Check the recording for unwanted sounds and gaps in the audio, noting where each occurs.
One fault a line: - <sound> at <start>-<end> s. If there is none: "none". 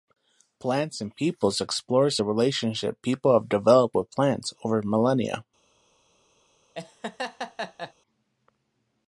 - laugh at 6.7-7.9 s